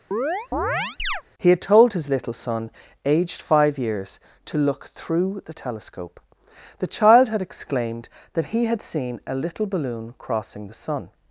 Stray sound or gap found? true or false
true